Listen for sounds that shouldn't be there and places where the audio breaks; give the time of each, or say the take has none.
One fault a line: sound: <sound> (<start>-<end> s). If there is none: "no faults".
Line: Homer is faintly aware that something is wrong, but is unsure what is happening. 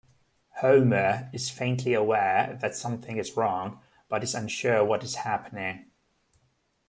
no faults